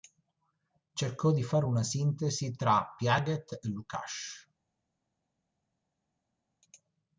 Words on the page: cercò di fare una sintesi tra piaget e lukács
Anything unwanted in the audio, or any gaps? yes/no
no